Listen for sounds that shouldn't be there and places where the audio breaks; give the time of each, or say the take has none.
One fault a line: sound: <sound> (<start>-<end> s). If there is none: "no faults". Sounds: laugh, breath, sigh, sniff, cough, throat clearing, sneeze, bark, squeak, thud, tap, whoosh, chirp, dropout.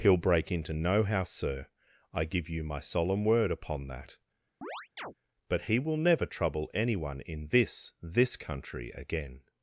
sound: chirp (4.6-5.1 s)